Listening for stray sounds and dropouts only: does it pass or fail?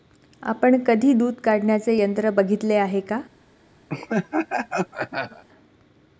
fail